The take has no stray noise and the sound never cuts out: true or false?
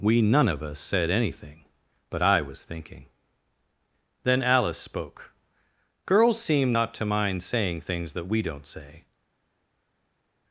true